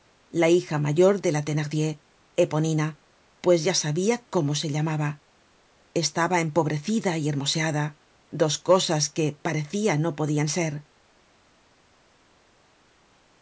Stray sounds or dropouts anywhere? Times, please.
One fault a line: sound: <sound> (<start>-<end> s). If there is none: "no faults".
no faults